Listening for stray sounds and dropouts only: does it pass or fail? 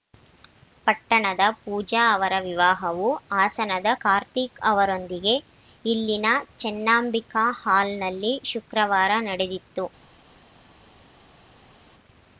pass